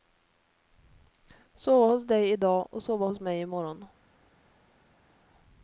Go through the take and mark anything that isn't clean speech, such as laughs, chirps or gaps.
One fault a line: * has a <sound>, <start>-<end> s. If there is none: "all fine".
all fine